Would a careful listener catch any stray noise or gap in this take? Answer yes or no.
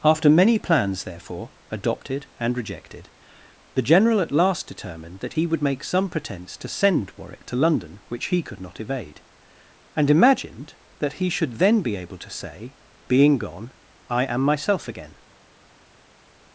no